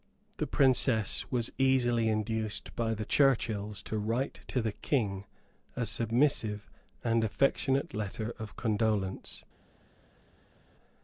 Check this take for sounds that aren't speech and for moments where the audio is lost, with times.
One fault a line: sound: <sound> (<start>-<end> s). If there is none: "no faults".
no faults